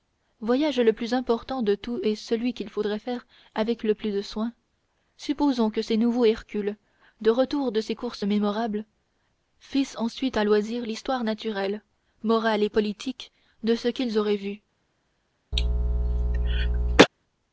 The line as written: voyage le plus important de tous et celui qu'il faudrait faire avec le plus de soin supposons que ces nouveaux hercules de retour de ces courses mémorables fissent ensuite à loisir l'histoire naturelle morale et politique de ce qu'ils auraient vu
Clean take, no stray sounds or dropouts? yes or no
no